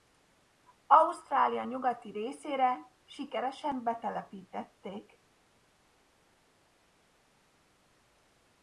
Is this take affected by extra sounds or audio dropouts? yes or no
no